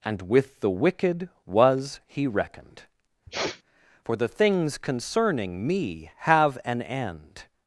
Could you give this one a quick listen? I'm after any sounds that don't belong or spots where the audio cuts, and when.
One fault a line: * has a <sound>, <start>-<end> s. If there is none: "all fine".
* has a sniff, 3.3-3.6 s